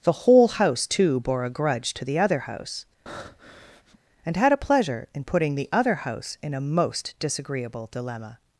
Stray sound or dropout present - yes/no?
yes